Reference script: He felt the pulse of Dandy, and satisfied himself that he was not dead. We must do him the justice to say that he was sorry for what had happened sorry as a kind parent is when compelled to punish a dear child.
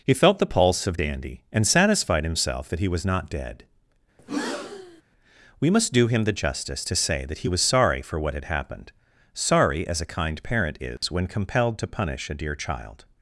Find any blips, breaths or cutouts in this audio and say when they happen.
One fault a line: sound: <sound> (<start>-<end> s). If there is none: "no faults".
sound: breath (4.2-5.0 s)
sound: dropout (11.0-11.0 s)